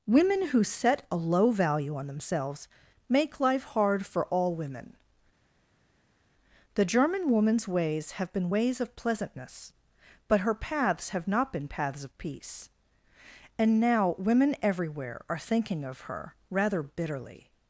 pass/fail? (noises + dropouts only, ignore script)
pass